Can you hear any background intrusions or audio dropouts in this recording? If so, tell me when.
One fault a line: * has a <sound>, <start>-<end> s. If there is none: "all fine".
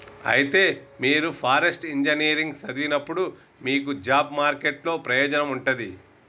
all fine